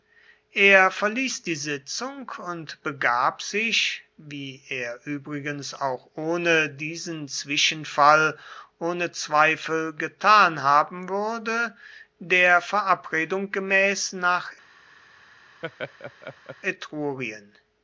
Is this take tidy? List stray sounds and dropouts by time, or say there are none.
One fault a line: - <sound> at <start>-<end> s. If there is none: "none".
- laugh at 15.6-16.6 s